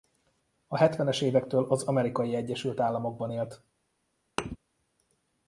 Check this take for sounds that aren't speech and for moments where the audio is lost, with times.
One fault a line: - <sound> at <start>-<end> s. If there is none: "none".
- thud at 4.4-4.6 s